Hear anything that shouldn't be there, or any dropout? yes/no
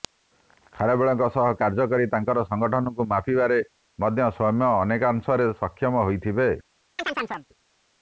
yes